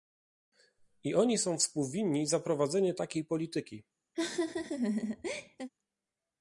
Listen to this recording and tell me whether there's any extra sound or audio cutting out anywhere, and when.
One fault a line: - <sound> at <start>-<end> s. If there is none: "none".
- laugh at 4.1-5.7 s